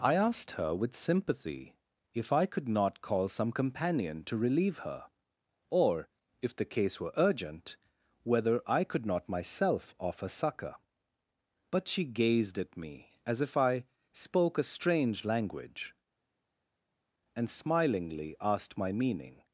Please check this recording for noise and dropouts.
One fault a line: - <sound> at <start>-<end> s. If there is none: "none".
none